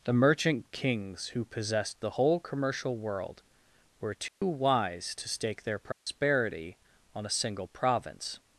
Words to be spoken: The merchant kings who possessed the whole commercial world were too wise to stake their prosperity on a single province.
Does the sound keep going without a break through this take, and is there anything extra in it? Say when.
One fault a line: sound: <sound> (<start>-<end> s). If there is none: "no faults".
sound: dropout (4.3-4.4 s)
sound: dropout (5.9-6.1 s)